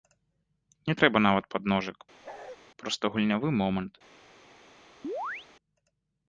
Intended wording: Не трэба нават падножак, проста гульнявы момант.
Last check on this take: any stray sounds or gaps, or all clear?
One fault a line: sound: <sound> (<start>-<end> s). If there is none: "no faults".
sound: bark (2.2-2.6 s)
sound: chirp (5.0-5.5 s)